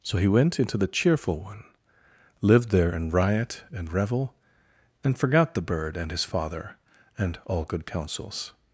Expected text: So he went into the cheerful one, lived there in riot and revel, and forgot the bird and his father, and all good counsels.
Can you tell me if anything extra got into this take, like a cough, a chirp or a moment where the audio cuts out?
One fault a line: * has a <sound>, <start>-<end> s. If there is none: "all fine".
all fine